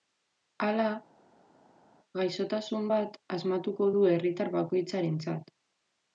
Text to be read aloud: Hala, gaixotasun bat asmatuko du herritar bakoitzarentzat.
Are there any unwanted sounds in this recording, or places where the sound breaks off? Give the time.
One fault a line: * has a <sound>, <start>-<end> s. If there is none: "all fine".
all fine